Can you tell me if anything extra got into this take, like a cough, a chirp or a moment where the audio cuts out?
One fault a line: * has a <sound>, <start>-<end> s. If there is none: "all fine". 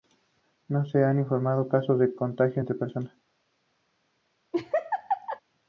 * has a laugh, 4.5-5.4 s